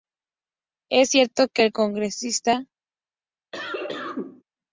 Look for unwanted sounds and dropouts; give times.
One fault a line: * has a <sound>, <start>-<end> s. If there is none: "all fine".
* has a cough, 3.5-4.4 s